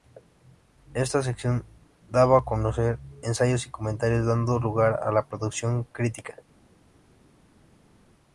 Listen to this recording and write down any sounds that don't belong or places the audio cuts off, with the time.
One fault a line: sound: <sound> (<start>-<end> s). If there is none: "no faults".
no faults